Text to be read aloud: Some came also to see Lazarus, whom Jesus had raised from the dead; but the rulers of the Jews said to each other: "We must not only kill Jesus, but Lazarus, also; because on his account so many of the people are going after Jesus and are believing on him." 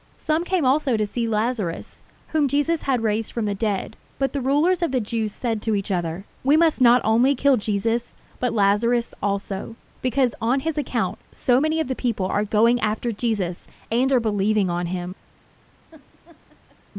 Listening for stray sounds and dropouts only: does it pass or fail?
fail